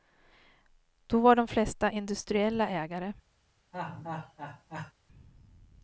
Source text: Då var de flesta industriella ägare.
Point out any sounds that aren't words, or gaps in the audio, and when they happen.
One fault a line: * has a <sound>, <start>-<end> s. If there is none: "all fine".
* has a laugh, 3.7-4.9 s